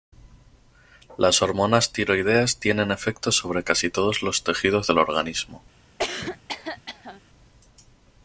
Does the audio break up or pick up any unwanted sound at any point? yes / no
yes